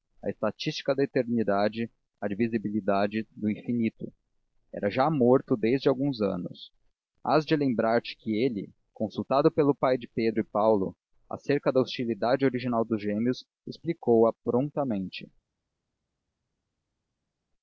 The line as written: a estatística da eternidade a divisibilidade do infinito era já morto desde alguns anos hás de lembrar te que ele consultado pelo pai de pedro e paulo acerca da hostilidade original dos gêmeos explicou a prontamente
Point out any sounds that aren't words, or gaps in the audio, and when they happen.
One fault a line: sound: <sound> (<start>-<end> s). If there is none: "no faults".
no faults